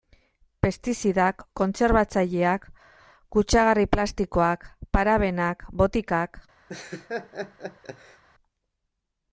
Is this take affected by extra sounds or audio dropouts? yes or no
yes